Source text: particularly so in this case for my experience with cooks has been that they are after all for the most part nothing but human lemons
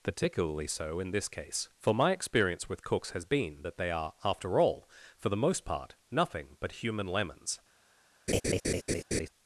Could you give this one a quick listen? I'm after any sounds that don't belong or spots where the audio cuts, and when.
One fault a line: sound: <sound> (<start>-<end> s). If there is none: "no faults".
sound: laugh (8.3-9.3 s)